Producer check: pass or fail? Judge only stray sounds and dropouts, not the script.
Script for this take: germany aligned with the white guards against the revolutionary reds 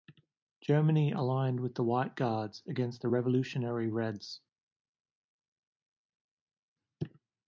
pass